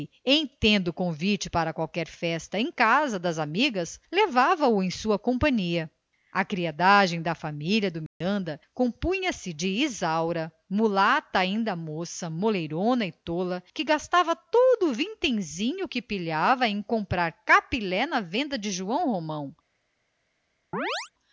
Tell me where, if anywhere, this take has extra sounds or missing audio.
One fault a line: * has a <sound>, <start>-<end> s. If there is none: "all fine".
* has a dropout, 8.1-8.2 s
* has a chirp, 20.7-21.1 s